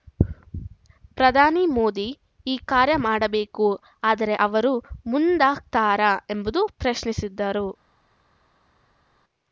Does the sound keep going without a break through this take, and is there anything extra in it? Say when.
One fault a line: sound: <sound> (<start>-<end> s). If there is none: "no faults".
no faults